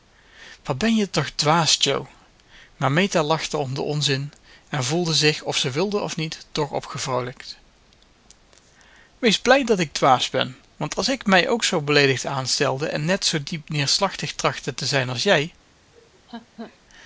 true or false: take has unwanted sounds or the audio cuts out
true